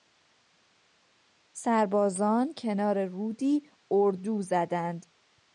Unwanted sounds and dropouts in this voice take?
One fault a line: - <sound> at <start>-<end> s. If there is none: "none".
none